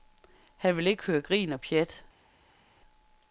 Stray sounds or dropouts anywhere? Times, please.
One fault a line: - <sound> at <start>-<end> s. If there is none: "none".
none